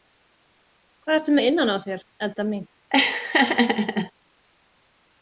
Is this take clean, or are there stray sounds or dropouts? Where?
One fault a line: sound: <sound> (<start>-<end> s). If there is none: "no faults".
sound: laugh (2.9-4.1 s)